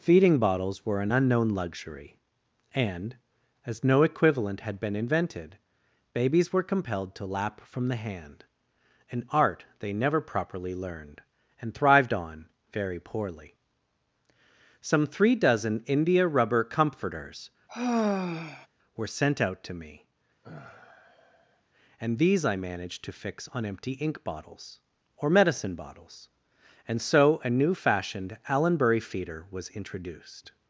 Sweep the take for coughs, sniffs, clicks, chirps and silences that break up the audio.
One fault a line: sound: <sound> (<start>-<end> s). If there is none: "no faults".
sound: sigh (17.7-18.7 s)
sound: sigh (20.4-21.6 s)